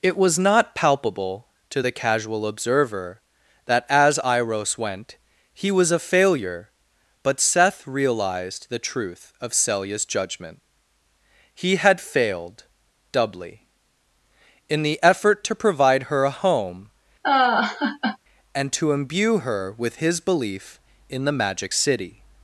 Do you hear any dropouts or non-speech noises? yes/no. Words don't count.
yes